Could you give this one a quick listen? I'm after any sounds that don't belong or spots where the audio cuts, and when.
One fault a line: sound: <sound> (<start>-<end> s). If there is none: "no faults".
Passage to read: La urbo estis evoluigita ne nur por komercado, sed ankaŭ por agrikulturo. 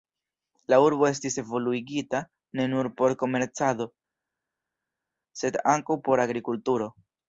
no faults